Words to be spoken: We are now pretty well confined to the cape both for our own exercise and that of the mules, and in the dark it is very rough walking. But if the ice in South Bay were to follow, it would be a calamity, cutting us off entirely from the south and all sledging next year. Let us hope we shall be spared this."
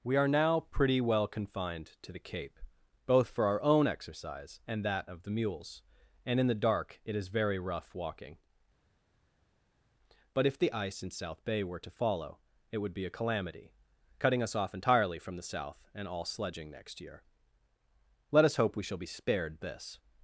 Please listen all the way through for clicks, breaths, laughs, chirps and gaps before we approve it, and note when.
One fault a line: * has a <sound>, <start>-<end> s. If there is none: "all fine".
all fine